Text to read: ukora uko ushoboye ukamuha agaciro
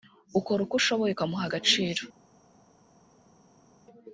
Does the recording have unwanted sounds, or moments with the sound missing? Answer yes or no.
no